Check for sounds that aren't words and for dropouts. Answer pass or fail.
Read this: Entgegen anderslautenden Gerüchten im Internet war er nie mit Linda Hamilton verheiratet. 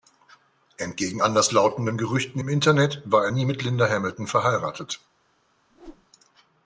fail